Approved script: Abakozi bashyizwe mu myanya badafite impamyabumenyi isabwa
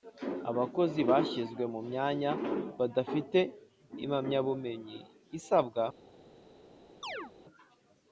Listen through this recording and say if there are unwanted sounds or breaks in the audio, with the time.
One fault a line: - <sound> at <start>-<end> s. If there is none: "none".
- chirp at 7.0-7.3 s